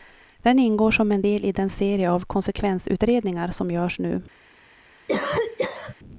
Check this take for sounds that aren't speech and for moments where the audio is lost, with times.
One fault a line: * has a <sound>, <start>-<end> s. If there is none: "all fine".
* has a cough, 5.1-5.9 s